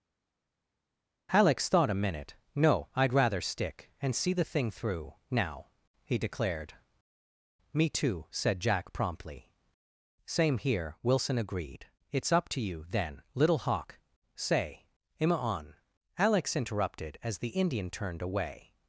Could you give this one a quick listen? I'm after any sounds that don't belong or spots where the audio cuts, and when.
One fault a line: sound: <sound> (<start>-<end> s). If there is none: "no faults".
no faults